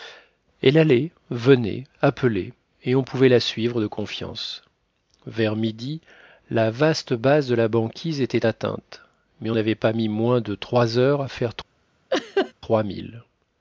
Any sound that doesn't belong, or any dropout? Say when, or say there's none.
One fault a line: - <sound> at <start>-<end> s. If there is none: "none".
- laugh at 12.1-12.5 s